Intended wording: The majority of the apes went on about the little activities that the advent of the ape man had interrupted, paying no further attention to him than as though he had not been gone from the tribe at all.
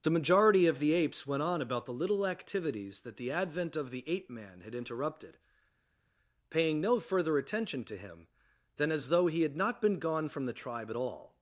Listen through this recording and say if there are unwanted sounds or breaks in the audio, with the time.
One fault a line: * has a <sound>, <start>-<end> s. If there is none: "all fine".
all fine